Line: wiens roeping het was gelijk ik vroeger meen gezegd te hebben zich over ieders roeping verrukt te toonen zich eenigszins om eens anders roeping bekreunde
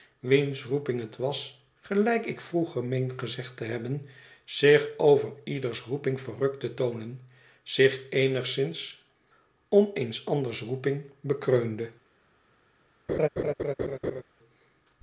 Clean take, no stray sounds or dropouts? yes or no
no